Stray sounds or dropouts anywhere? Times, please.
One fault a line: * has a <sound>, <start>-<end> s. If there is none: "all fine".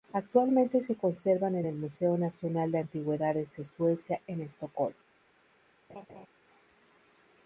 * has a laugh, 5.9-6.3 s